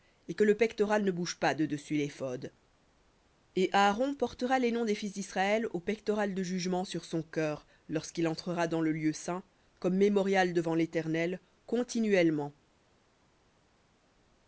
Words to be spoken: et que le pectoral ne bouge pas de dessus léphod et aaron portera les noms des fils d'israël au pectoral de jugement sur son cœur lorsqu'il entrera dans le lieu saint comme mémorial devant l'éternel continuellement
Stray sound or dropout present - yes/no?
no